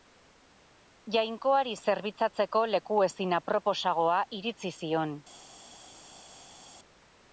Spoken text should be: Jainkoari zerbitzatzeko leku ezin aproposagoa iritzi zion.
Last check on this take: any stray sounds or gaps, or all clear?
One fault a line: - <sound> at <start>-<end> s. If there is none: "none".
none